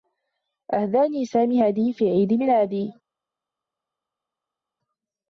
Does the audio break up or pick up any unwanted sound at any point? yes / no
no